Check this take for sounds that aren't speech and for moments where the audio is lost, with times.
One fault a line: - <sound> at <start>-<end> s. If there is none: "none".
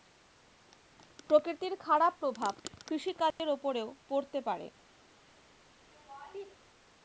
- dropout at 3.3-3.4 s
- laugh at 5.9-6.5 s